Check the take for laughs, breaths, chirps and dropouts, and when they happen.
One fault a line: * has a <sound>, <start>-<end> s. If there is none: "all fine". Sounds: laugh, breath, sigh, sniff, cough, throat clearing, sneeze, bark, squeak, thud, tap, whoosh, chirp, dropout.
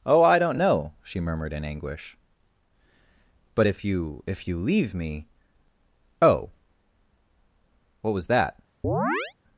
* has a chirp, 8.8-9.3 s